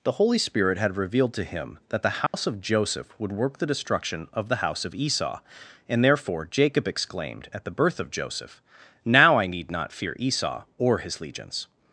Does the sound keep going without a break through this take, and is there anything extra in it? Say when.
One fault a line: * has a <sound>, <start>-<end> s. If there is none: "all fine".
* has a dropout, 2.3-2.3 s